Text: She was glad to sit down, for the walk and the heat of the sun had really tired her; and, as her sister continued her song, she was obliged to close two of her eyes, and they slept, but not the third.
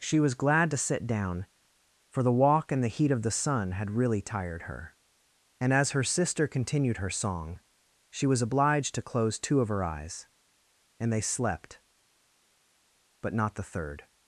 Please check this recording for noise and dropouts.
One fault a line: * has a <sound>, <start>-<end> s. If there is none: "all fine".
all fine